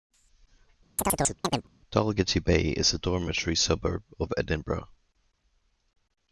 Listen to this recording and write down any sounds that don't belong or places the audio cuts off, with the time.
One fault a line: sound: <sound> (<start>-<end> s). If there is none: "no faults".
sound: chirp (1.0-1.7 s)